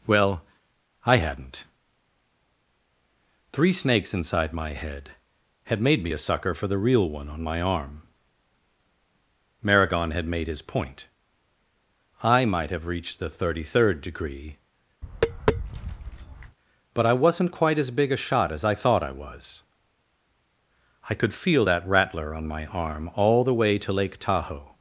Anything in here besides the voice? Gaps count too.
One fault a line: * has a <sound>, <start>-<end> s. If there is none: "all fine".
* has a tap, 15.0-16.6 s